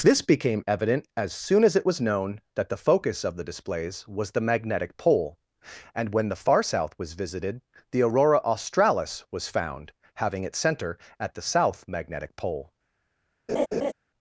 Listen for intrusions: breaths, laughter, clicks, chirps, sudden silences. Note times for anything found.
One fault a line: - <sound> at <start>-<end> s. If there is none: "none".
- laugh at 13.5-13.9 s